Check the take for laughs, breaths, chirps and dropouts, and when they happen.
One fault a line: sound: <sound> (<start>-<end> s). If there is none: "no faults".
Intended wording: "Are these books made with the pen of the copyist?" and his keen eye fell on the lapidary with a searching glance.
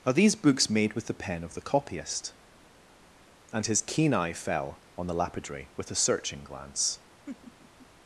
sound: laugh (7.3-7.9 s)